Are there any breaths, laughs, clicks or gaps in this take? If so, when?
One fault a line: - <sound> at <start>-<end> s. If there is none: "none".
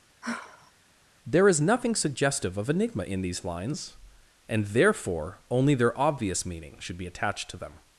- sigh at 0.2-0.7 s